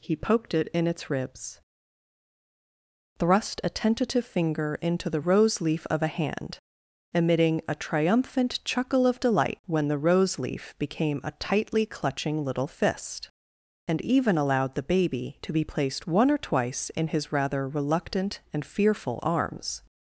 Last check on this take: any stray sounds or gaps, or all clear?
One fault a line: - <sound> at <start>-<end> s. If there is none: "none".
none